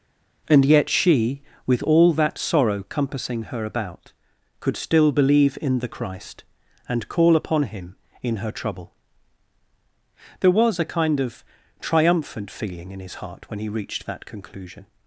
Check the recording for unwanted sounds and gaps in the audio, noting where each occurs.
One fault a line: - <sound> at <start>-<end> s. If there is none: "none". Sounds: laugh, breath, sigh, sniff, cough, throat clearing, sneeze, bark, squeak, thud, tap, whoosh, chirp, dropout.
none